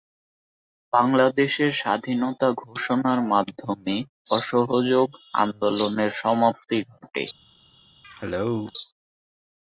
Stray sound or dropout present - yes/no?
yes